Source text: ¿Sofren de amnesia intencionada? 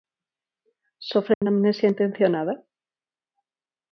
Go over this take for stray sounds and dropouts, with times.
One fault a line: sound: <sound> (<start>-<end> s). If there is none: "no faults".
sound: dropout (1.3-1.4 s)